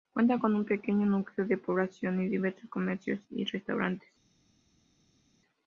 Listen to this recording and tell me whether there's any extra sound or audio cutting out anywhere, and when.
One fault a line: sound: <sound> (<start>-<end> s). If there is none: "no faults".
no faults